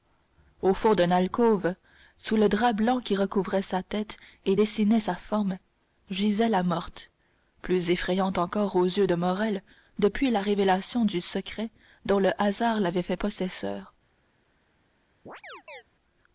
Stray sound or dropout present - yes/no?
yes